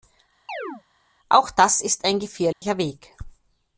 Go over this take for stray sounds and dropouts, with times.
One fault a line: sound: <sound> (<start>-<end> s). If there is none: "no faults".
sound: chirp (0.5-0.8 s)
sound: dropout (2.5-2.6 s)